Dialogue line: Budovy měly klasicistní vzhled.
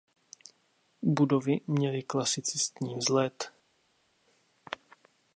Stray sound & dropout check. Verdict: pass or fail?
pass